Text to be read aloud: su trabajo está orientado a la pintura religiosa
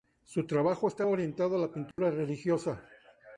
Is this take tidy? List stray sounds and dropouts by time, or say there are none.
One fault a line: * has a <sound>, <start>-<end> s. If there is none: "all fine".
* has a dropout, 1.9-2.0 s